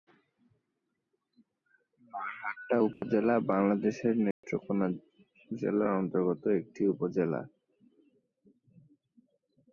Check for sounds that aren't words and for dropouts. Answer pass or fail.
fail